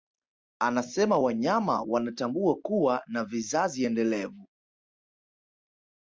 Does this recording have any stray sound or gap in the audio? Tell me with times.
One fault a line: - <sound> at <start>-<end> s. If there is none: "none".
none